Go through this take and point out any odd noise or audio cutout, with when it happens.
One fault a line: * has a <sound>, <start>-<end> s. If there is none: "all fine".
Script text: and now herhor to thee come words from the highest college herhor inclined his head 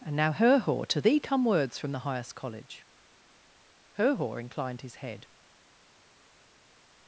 all fine